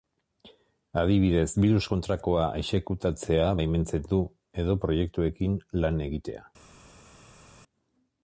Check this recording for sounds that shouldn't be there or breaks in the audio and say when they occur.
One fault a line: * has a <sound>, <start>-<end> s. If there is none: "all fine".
all fine